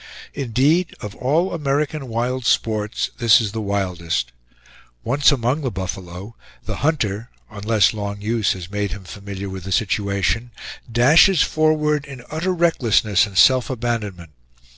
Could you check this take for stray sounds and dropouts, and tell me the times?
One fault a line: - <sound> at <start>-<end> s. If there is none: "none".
none